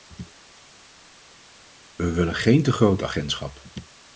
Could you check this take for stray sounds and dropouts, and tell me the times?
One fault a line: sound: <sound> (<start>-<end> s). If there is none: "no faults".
no faults